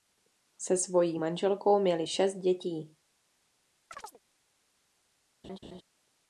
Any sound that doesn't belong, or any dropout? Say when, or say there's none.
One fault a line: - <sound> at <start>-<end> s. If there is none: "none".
- chirp at 3.9-4.2 s
- laugh at 5.4-5.8 s